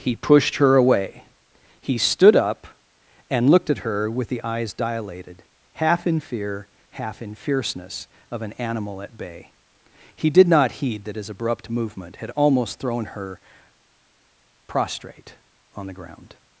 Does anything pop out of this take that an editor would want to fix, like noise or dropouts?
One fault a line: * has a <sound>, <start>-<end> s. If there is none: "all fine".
all fine